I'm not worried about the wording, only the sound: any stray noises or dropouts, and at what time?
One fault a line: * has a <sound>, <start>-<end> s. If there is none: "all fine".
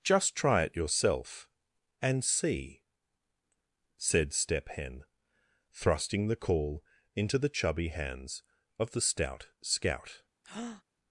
* has a breath, 10.4-10.8 s